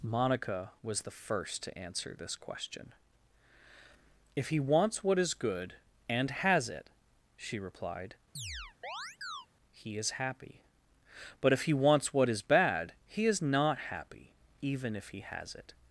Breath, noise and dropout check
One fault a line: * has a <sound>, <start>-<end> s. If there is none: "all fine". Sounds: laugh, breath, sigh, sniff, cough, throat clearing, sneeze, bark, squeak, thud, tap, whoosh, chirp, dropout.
* has a chirp, 8.4-9.5 s